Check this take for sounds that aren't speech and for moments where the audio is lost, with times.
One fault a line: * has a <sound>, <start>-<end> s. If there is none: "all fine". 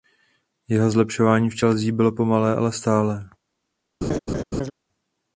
* has a laugh, 4.0-4.7 s